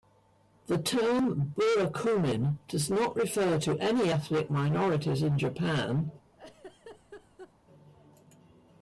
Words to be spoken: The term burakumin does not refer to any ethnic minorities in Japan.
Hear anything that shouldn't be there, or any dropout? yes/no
yes